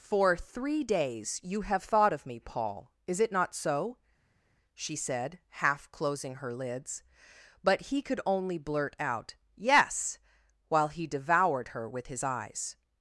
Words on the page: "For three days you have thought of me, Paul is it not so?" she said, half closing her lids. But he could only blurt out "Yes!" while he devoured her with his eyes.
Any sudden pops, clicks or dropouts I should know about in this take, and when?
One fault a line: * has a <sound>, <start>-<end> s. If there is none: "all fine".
all fine